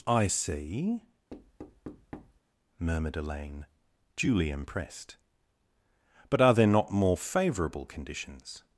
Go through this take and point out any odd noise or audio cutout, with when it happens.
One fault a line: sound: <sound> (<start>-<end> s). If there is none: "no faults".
sound: thud (1.3-2.4 s)